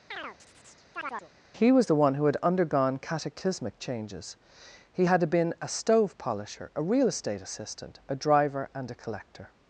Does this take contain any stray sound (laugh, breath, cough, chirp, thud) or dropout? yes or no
yes